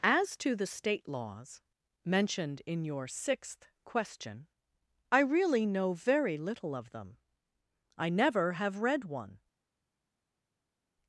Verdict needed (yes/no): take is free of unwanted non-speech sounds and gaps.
yes